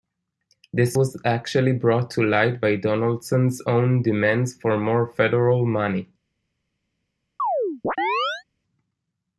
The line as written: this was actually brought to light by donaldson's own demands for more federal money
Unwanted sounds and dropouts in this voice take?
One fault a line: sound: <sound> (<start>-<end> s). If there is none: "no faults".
sound: chirp (7.4-8.4 s)